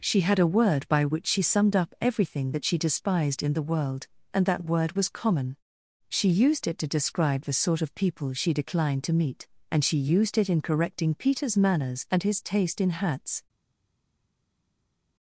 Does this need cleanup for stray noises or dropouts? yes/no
no